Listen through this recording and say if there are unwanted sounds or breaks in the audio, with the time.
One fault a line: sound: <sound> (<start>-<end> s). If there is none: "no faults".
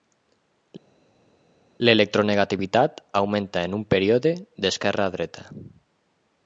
no faults